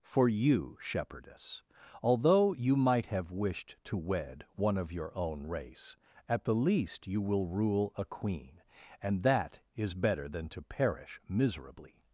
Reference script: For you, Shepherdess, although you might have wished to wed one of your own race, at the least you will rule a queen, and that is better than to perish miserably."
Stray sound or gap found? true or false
false